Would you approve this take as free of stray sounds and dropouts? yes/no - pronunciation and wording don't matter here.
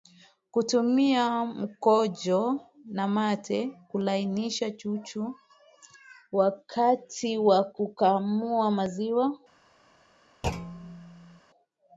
no